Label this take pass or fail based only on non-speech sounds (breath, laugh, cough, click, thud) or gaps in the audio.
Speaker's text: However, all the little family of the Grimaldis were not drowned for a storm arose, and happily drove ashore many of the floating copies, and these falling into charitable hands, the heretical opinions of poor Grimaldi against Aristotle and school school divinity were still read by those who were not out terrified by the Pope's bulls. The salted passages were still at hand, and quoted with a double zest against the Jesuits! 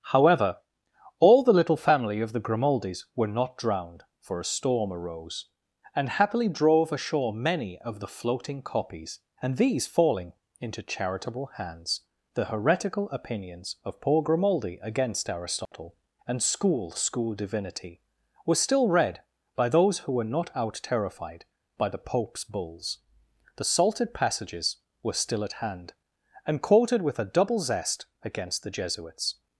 fail